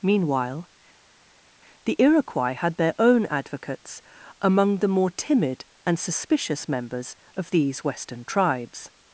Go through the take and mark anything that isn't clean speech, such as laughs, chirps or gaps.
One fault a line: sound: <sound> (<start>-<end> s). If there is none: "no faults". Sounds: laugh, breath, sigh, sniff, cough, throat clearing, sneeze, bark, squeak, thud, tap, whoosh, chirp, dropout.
no faults